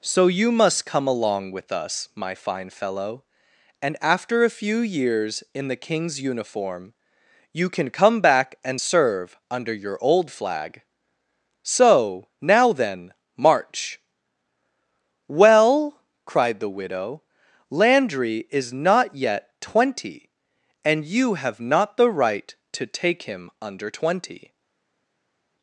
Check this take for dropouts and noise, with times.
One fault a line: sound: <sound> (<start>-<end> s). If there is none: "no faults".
no faults